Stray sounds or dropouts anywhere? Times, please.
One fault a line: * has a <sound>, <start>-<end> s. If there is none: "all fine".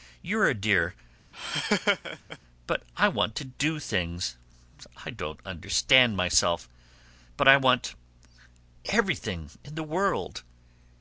* has a laugh, 1.3-2.4 s